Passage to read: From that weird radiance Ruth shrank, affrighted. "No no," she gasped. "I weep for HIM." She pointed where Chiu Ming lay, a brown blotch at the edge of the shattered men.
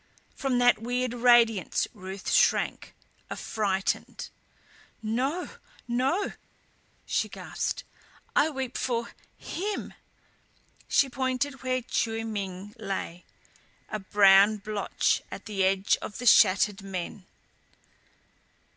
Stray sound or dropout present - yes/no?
no